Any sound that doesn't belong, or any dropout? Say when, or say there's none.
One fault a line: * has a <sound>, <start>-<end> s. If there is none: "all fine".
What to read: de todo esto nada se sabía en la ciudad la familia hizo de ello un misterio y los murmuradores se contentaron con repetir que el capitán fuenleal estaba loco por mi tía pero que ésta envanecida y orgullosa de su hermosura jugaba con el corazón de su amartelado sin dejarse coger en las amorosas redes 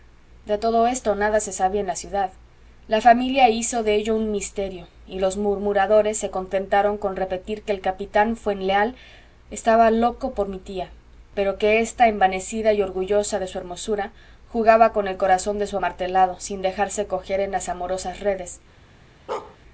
* has a bark, 19.3-19.6 s